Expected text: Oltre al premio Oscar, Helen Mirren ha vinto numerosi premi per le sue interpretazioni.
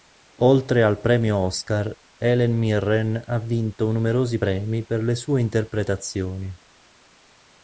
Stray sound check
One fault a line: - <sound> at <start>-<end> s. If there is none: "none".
none